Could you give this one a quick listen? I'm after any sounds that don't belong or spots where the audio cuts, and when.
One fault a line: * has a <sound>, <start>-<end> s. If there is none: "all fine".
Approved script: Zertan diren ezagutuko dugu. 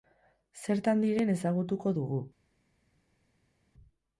all fine